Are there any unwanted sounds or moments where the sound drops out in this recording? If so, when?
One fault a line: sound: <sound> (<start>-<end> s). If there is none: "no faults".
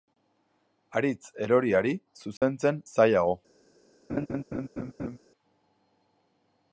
sound: dropout (2.4-2.4 s)
sound: laugh (4.1-5.2 s)